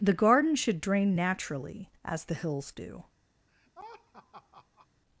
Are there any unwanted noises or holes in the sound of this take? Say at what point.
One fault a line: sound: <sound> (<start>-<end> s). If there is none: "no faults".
sound: laugh (3.5-4.9 s)